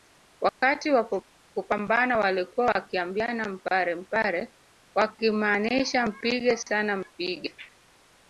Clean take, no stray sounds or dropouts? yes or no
no